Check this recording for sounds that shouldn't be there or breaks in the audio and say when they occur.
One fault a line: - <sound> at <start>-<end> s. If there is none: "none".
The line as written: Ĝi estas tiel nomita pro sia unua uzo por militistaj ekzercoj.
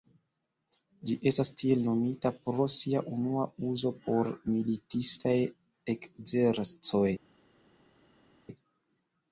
none